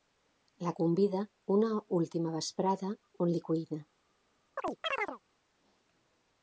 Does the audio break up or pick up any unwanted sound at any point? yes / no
yes